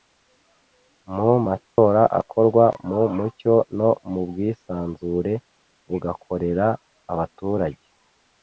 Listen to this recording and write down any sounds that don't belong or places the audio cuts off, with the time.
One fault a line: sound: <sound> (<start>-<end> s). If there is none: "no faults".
sound: dropout (1.7-1.8 s)